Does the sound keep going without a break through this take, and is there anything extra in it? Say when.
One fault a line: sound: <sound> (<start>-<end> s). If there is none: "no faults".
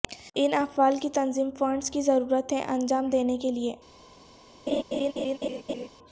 sound: laugh (4.7-5.9 s)